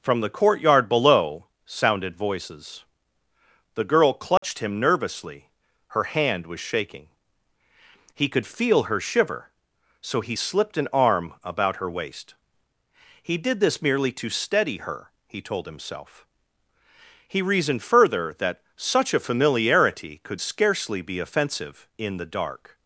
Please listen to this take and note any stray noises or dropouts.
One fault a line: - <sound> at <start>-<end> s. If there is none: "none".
- dropout at 4.4-4.4 s